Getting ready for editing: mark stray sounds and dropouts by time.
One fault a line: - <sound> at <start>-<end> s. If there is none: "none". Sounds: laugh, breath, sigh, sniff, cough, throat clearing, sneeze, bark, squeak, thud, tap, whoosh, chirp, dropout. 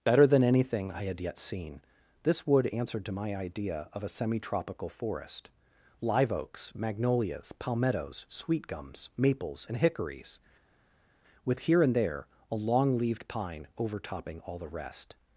none